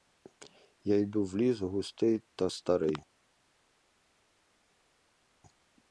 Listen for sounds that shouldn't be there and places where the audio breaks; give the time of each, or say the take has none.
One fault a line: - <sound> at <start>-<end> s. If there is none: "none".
none